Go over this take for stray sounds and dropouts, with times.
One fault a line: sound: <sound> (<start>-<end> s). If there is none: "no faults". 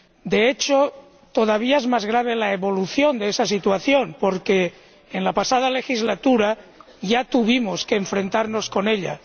no faults